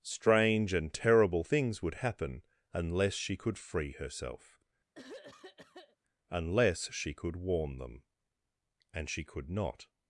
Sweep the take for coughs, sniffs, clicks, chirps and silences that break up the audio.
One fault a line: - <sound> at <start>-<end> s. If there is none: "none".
- throat clearing at 4.9-6.0 s